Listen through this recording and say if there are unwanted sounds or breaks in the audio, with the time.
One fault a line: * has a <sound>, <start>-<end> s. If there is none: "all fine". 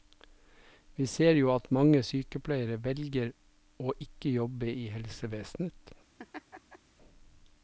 * has a laugh, 6.2-6.8 s